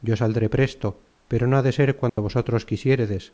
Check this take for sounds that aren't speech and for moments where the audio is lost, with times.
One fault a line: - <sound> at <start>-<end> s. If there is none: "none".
- dropout at 2.1-2.2 s